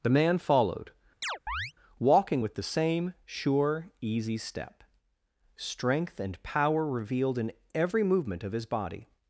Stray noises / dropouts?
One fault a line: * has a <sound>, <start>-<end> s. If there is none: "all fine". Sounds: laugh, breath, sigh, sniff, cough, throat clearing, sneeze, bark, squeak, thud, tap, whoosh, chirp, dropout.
* has a chirp, 1.2-1.7 s